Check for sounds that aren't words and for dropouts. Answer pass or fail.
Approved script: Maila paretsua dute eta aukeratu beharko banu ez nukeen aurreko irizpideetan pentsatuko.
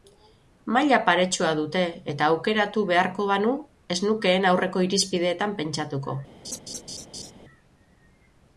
fail